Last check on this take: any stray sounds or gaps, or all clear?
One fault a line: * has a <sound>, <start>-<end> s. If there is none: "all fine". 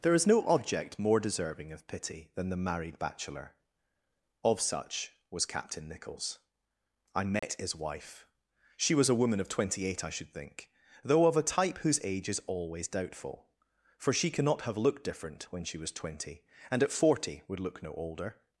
* has a dropout, 7.4-7.4 s